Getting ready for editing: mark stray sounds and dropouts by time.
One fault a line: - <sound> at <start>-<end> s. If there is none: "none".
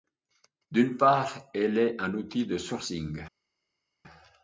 none